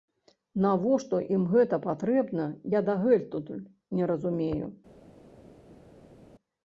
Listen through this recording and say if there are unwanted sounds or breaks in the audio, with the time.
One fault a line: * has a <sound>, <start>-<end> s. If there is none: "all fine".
all fine